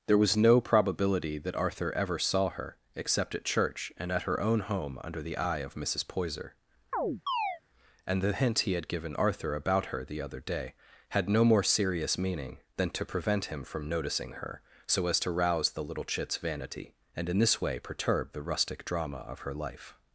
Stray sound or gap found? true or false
true